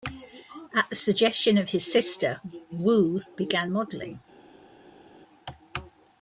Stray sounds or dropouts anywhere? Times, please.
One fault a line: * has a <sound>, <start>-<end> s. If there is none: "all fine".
all fine